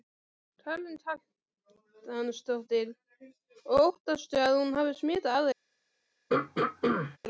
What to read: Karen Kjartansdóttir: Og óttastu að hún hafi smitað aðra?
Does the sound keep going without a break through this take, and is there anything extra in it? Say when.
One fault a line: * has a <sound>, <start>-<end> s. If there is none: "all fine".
* has a throat clearing, 6.3-7.2 s